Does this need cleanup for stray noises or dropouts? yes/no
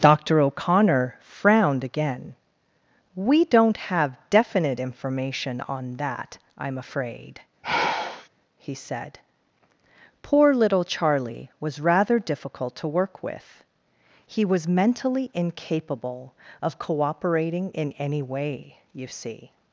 yes